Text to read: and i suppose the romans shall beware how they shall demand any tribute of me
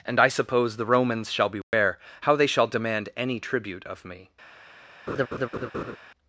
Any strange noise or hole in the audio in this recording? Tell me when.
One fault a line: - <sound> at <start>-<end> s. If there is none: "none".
- dropout at 1.6-1.7 s
- laugh at 5.1-6.0 s